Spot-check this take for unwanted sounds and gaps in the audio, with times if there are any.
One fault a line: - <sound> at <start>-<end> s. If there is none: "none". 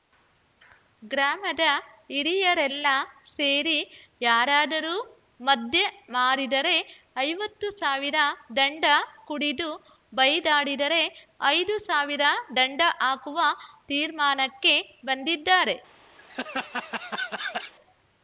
- laugh at 16.2-17.7 s